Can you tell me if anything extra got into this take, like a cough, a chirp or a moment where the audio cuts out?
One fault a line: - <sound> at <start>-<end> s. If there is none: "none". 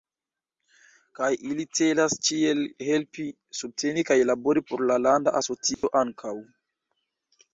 - dropout at 5.7-5.8 s